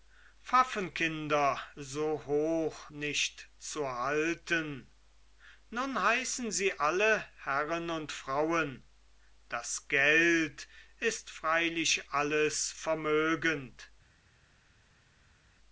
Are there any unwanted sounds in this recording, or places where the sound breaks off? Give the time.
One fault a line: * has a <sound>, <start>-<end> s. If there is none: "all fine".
all fine